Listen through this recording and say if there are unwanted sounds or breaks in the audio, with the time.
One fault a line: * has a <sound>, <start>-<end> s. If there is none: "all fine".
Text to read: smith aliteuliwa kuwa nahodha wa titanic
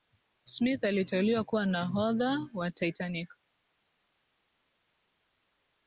all fine